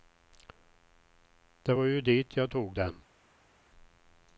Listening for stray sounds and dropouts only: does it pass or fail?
pass